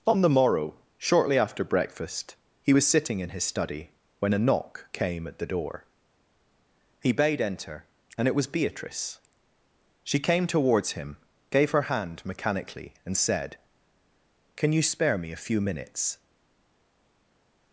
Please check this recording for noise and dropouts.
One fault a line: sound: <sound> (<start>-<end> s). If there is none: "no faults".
no faults